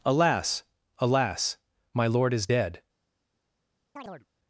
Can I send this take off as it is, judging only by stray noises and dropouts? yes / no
no